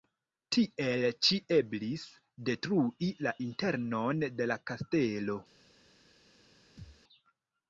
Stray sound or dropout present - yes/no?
yes